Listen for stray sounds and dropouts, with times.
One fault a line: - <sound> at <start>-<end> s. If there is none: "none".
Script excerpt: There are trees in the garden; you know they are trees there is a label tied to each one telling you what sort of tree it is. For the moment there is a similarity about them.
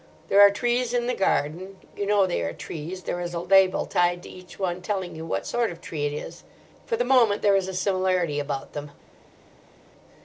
none